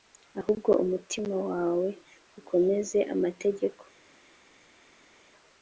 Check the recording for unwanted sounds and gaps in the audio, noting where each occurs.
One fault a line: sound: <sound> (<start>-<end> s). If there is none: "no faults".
no faults